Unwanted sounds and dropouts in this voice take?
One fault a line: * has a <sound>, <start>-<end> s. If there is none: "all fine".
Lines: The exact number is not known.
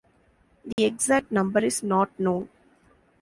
* has a dropout, 0.7-0.8 s